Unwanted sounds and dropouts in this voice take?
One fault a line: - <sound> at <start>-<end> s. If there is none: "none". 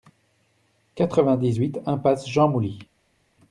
none